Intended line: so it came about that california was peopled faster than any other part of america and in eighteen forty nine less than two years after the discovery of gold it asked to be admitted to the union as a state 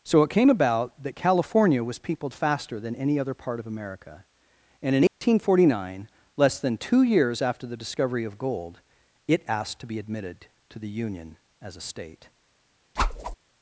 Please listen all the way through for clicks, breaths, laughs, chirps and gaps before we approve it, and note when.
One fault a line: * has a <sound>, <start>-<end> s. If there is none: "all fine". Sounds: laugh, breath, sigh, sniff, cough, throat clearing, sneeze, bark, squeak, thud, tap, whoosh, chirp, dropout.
* has a dropout, 5.1-5.2 s
* has a whoosh, 13.0-13.4 s